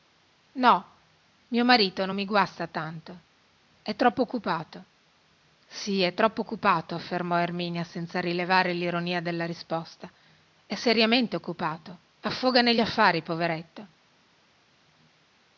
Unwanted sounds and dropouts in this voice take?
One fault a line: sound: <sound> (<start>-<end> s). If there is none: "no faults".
no faults